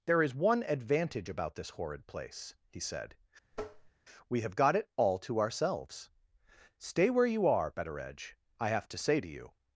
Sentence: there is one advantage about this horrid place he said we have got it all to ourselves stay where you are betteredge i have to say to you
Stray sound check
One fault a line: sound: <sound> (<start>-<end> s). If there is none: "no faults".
sound: tap (3.5-3.9 s)